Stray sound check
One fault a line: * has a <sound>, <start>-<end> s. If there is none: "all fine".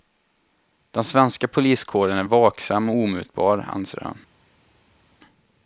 all fine